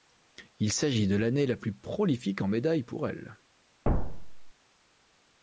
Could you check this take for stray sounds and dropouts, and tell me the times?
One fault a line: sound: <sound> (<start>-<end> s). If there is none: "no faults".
sound: thud (3.8-4.5 s)